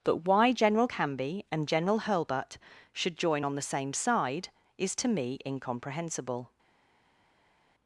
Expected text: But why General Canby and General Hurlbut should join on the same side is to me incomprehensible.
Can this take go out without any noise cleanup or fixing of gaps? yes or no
yes